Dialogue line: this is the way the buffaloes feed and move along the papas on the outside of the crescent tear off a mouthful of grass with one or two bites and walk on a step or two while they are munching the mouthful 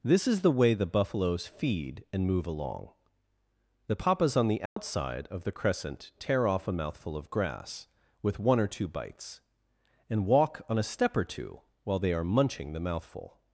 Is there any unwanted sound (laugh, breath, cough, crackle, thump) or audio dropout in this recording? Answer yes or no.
yes